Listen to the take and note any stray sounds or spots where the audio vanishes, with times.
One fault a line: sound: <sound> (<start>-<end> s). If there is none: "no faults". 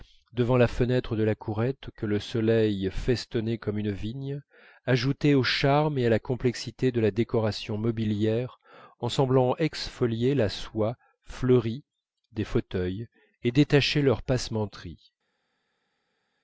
no faults